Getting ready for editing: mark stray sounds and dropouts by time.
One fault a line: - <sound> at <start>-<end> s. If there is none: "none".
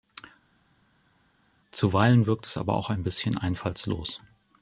none